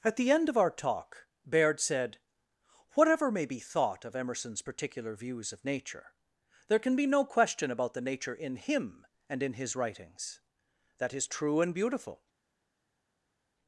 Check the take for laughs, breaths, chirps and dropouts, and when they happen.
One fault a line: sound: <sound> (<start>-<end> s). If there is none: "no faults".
no faults